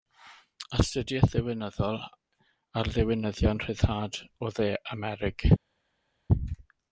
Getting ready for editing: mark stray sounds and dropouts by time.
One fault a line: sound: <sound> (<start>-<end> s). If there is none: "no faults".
no faults